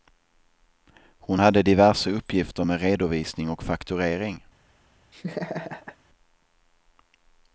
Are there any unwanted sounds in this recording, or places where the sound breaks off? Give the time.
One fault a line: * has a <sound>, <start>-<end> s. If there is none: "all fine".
* has a laugh, 5.1-6.0 s